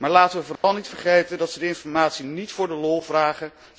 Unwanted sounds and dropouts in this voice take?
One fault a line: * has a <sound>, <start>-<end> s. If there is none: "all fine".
* has a dropout, 0.6-0.6 s